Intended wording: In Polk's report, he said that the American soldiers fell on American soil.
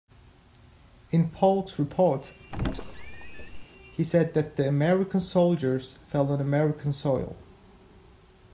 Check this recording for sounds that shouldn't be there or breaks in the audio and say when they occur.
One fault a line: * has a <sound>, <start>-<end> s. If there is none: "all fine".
* has a squeak, 2.5-3.6 s